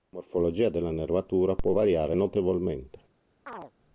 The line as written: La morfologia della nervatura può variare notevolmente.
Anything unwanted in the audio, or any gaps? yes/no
yes